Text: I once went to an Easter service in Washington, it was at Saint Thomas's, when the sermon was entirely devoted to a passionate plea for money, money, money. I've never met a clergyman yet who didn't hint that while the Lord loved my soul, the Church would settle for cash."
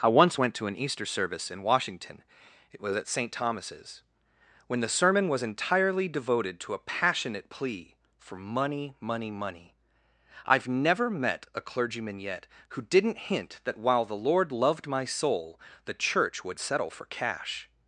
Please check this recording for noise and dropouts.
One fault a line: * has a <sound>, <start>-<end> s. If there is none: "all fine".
all fine